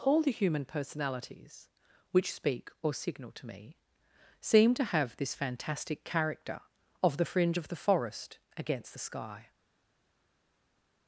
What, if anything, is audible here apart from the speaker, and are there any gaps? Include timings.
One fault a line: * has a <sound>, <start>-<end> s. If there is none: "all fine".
all fine